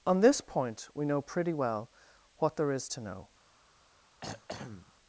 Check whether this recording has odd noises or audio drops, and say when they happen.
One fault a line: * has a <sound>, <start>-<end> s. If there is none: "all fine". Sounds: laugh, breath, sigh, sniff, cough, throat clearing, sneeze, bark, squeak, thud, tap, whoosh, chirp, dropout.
* has a throat clearing, 4.2-4.9 s